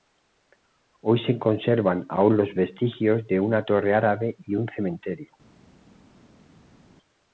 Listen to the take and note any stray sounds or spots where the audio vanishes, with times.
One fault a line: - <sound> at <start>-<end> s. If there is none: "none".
none